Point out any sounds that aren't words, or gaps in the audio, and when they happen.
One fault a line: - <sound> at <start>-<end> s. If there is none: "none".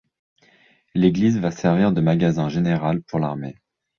none